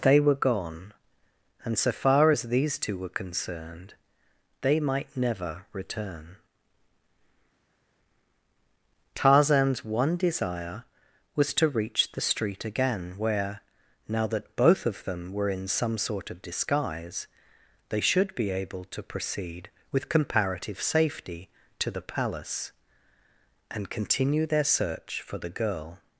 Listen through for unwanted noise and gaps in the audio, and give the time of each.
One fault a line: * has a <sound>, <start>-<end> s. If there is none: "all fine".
all fine